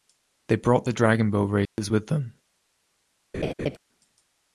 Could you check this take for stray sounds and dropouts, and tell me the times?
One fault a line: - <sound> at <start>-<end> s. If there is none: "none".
- dropout at 1.7-1.8 s
- laugh at 3.3-3.8 s